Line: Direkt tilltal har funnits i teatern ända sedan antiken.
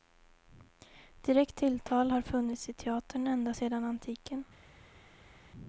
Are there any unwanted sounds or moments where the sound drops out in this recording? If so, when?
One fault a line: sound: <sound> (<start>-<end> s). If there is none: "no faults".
no faults